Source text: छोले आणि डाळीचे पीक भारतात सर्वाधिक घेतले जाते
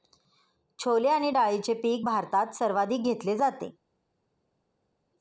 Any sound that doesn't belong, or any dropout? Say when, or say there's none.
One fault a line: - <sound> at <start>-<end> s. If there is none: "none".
none